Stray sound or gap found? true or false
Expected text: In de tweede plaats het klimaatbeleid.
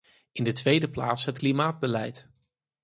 false